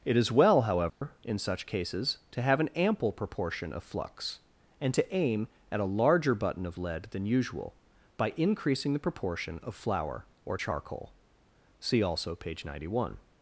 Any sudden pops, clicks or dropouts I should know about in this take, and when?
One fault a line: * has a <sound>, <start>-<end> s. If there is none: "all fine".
* has a dropout, 0.9-1.0 s